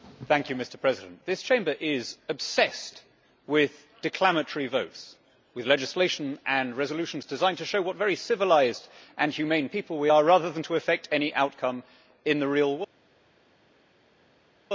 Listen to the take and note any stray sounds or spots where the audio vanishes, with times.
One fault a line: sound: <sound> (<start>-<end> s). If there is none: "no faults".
no faults